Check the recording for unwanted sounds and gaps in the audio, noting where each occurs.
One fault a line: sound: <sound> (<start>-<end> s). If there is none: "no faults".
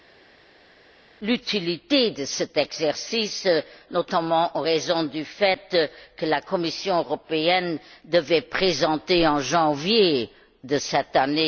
no faults